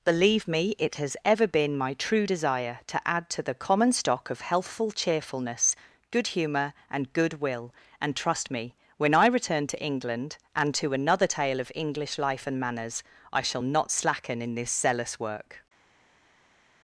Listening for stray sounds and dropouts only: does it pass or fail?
pass